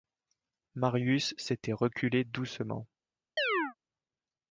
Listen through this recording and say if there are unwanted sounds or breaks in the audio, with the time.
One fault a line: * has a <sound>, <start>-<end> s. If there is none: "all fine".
* has a chirp, 3.4-3.7 s